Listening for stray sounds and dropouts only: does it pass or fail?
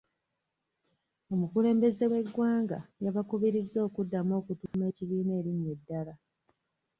fail